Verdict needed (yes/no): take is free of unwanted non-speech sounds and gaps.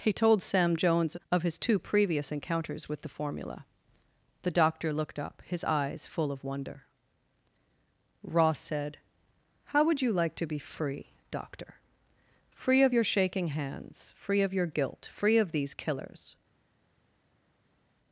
yes